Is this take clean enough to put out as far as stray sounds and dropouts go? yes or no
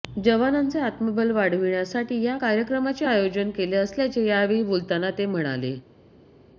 yes